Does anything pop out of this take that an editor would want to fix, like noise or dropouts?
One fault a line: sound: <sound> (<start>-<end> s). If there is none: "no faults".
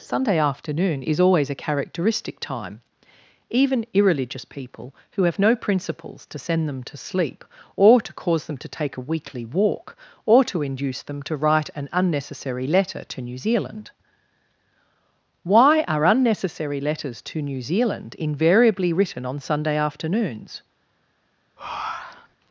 sound: breath (21.6-22.4 s)